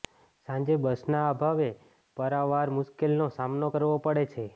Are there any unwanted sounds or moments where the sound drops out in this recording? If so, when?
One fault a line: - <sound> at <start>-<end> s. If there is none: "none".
none